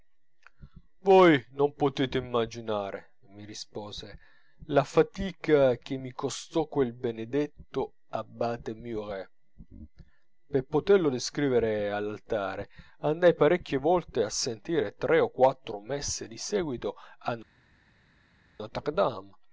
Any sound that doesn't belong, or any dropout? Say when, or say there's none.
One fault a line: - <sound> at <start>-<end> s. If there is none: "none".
none